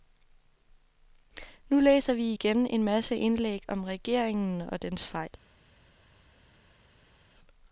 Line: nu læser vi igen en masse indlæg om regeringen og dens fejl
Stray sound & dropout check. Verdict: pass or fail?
pass